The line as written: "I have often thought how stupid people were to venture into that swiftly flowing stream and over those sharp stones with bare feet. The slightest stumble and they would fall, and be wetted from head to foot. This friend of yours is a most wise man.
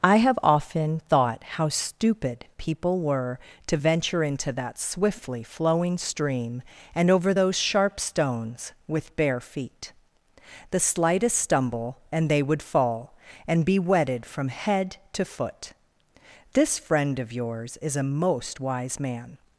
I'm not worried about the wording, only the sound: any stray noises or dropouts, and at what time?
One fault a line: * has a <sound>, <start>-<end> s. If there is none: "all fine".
all fine